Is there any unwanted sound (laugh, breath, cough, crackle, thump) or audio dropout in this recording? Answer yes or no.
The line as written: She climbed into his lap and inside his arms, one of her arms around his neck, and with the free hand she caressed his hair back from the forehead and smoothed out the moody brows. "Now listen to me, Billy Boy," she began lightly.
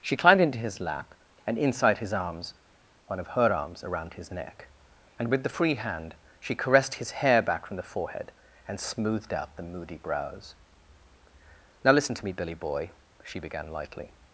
no